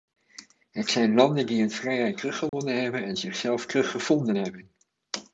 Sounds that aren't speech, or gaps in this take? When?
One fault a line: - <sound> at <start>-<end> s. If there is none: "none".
- dropout at 2.5-2.5 s